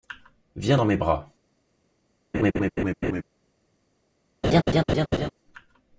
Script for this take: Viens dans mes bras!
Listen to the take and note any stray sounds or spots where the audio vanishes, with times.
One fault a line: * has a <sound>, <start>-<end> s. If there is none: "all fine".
* has a laugh, 2.3-3.2 s
* has a laugh, 4.4-5.3 s